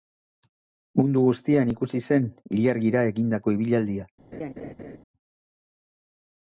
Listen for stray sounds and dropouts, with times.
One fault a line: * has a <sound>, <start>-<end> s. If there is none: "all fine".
* has a laugh, 4.3-5.0 s